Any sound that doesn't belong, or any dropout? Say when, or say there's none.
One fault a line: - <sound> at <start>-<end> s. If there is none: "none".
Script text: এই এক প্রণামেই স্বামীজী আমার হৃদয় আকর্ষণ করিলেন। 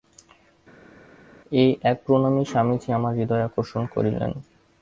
none